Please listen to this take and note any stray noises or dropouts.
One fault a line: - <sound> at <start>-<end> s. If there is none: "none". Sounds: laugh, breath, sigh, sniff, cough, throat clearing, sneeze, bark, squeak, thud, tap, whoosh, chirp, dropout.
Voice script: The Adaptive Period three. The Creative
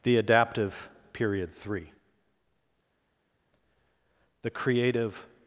none